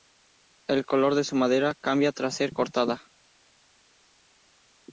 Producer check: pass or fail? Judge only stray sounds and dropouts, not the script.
pass